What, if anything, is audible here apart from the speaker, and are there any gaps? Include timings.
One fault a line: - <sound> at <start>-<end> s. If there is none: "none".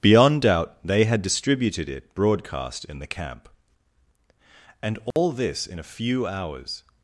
- dropout at 5.1-5.2 s